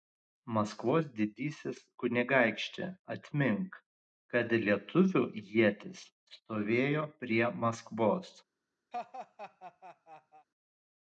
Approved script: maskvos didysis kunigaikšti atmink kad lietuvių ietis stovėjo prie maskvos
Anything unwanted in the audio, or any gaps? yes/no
yes